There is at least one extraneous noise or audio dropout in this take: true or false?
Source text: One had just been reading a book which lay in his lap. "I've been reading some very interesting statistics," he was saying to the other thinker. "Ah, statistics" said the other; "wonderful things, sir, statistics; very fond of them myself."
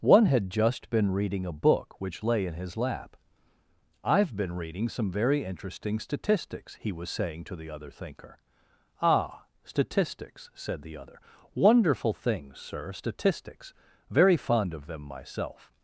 false